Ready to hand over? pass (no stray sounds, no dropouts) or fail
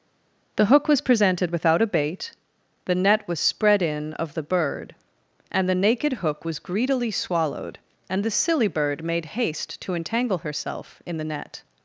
pass